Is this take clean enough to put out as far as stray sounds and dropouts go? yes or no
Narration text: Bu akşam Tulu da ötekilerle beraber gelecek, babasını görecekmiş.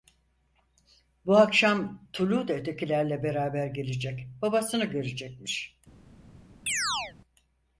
no